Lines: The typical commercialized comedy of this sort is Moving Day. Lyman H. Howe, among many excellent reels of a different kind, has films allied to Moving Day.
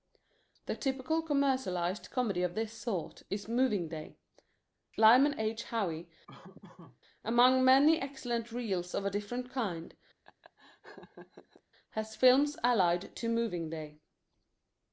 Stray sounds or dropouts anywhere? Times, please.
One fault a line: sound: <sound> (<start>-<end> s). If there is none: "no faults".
sound: laugh (6.3-7.0 s)
sound: laugh (10.2-11.6 s)